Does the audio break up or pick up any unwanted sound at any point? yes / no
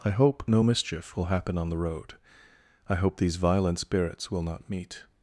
no